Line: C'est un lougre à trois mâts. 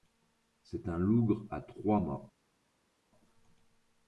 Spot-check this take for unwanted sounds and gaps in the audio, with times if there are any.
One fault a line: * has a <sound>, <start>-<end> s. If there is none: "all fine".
all fine